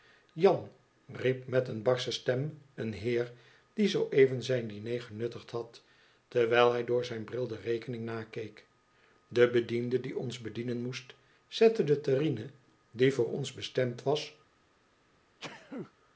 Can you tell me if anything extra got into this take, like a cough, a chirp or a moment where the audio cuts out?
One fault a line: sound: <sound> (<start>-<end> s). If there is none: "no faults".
sound: sneeze (15.4-15.9 s)